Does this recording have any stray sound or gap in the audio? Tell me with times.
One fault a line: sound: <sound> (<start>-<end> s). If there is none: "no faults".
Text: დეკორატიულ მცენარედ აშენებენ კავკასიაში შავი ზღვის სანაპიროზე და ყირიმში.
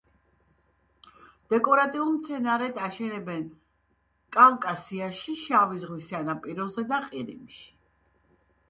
no faults